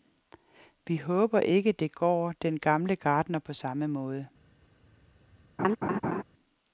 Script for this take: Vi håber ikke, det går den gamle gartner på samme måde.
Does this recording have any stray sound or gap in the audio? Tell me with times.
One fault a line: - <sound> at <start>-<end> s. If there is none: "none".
- laugh at 5.6-6.2 s